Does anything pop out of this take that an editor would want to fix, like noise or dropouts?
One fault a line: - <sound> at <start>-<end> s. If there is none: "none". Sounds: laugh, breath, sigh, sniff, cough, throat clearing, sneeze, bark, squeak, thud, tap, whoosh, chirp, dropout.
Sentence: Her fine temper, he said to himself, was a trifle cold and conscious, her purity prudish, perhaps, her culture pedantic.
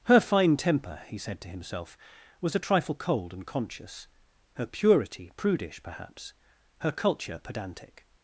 none